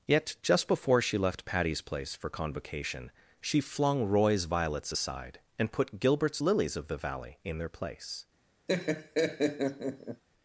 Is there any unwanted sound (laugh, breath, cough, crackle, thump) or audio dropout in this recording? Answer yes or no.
yes